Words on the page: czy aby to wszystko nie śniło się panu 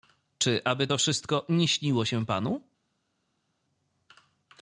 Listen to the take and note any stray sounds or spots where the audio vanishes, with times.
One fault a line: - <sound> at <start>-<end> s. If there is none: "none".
none